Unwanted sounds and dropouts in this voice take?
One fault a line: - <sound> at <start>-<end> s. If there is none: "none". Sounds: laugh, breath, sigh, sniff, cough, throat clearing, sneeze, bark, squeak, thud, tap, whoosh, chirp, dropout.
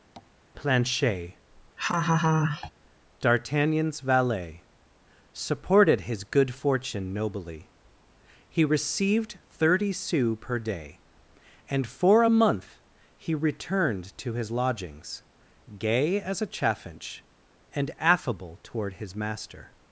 - tap at 0.2-0.3 s
- laugh at 1.8-2.7 s